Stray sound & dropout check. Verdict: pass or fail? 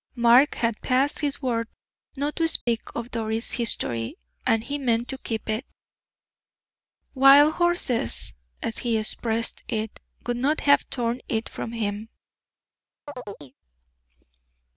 fail